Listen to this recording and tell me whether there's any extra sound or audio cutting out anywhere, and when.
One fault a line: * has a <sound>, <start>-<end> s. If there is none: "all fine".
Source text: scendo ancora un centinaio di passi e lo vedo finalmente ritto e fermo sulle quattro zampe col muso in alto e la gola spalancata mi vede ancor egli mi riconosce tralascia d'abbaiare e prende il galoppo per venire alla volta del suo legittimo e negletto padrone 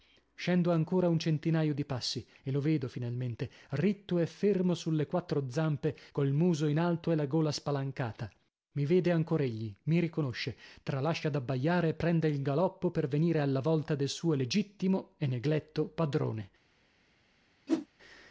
* has a whoosh, 17.7-17.9 s